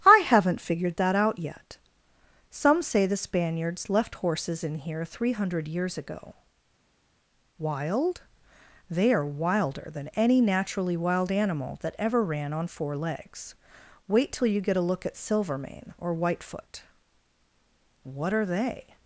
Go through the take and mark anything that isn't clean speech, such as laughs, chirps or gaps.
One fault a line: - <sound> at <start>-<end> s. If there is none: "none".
none